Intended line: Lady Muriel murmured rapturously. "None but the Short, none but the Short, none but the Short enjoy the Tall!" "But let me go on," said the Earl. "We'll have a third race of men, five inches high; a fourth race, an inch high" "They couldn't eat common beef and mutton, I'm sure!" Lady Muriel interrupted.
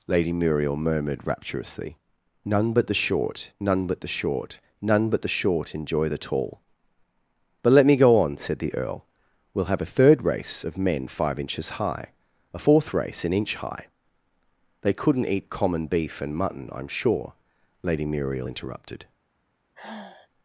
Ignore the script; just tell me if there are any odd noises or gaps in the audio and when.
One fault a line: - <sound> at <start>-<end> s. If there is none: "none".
- sigh at 19.7-20.3 s